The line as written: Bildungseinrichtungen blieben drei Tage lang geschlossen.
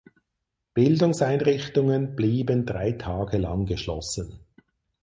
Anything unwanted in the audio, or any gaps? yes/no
no